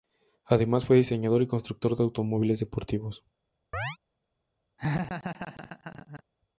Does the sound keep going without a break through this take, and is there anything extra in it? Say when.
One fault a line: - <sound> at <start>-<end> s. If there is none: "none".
- chirp at 3.7-4.0 s
- laugh at 4.8-6.2 s